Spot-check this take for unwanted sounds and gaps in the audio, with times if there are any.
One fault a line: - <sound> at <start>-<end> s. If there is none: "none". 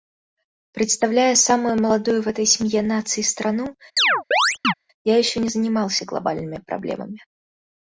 - chirp at 4.0-4.7 s